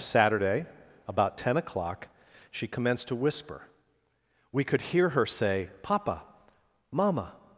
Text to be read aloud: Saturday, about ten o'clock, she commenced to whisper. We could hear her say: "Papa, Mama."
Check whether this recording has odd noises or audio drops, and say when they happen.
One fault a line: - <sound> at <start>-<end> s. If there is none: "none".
none